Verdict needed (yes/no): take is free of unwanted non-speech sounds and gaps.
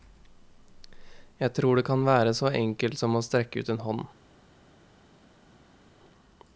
yes